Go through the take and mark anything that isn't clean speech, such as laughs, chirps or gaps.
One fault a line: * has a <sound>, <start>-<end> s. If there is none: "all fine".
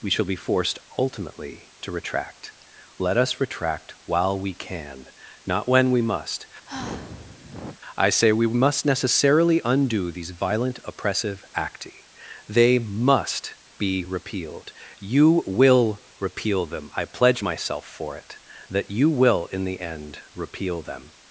* has a sigh, 6.7-7.8 s